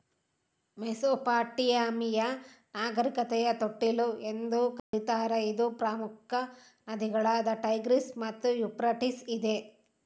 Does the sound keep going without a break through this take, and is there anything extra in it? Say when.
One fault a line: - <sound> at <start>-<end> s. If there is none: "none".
- dropout at 4.8-4.9 s